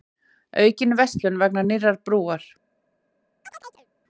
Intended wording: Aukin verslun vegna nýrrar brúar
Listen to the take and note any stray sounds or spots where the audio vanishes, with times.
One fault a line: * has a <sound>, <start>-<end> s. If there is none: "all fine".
* has a chirp, 3.4-3.9 s